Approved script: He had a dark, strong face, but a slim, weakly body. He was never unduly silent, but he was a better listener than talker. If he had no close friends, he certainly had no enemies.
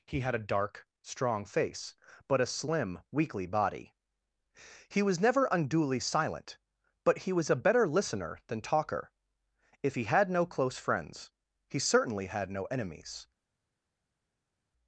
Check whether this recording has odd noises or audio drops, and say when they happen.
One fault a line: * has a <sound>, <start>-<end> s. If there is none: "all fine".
all fine